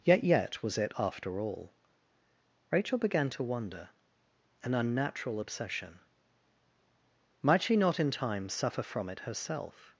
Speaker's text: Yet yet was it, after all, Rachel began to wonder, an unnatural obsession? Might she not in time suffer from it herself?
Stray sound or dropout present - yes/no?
no